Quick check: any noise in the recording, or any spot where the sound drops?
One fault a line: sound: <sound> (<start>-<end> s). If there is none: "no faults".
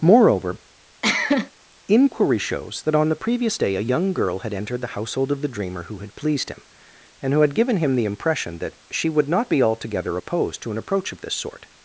sound: cough (1.0-1.5 s)